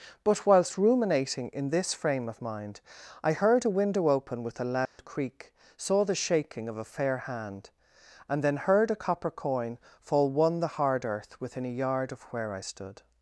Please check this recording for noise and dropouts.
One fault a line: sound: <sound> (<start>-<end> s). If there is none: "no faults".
sound: dropout (4.9-5.0 s)